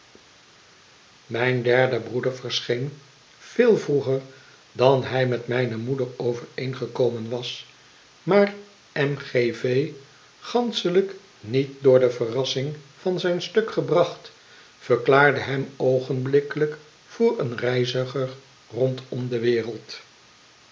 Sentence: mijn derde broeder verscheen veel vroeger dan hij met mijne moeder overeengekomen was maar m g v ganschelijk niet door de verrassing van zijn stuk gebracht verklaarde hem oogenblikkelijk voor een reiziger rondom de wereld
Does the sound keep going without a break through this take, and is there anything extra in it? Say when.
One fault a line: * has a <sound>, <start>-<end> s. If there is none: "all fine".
all fine